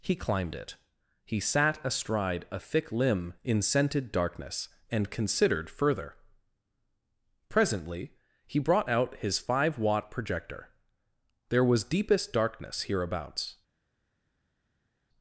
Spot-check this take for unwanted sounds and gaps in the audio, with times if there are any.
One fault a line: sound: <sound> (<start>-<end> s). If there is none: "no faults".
no faults